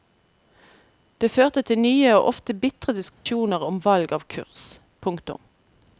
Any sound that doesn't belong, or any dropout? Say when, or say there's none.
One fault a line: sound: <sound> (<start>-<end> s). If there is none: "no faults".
sound: dropout (3.1-3.3 s)